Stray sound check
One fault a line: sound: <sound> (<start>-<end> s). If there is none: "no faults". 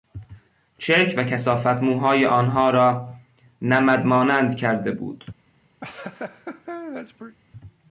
sound: laugh (5.8-7.4 s)